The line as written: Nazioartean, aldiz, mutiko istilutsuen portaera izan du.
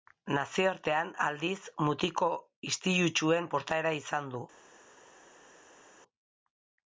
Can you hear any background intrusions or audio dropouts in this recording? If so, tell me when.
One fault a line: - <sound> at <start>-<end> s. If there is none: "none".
none